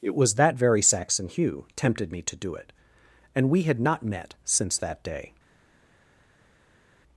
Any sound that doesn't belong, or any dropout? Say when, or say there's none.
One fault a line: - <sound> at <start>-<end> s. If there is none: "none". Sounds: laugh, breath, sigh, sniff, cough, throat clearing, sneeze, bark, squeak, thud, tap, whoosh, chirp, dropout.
none